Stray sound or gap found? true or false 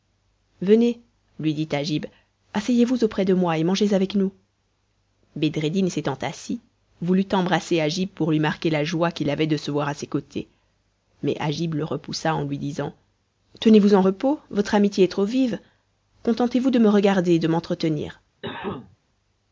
true